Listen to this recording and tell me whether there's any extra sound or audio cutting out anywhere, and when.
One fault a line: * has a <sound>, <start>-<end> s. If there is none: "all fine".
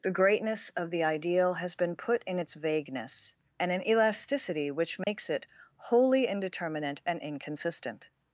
* has a dropout, 5.0-5.1 s